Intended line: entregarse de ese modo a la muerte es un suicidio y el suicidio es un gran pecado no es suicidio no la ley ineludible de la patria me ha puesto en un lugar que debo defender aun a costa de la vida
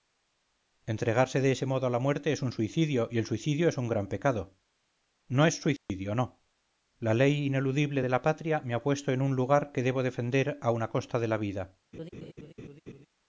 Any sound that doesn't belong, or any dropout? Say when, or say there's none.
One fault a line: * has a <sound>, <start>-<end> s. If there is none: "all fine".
* has a dropout, 5.8-5.9 s
* has a laugh, 11.9-13.1 s